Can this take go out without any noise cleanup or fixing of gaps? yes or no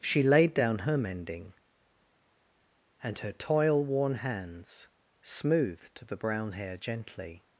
yes